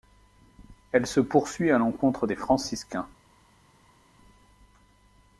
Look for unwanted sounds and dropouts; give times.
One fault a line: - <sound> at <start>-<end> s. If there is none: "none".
none